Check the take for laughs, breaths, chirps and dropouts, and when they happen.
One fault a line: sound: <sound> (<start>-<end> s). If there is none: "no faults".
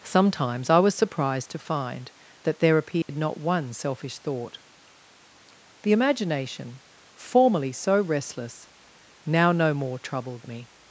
sound: dropout (3.0-3.1 s)